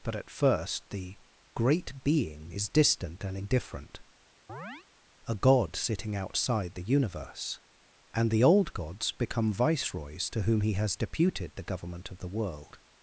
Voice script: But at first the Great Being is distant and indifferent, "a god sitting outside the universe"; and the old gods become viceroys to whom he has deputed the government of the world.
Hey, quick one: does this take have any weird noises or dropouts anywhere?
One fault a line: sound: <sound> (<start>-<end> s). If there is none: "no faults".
sound: chirp (4.5-4.9 s)